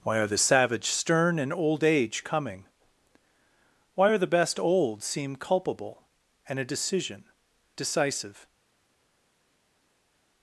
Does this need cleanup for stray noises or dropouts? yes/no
no